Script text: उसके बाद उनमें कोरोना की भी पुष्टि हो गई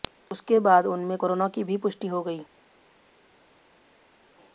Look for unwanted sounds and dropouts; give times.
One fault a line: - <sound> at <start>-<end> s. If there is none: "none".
none